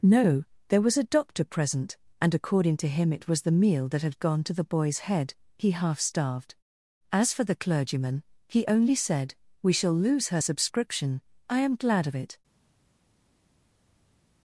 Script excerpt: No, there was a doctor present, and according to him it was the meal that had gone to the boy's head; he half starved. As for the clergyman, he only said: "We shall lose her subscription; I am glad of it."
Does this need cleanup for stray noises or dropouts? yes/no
no